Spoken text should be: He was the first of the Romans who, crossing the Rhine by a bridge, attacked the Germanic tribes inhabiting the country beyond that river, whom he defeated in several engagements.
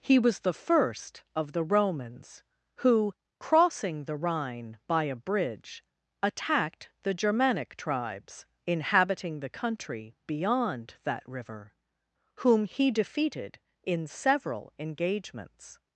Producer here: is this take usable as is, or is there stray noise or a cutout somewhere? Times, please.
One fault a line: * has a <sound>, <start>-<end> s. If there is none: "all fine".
all fine